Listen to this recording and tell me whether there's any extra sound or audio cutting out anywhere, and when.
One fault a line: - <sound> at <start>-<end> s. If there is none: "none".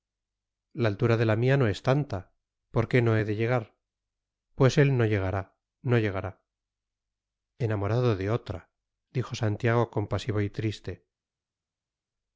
none